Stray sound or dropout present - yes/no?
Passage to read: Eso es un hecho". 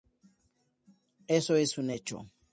no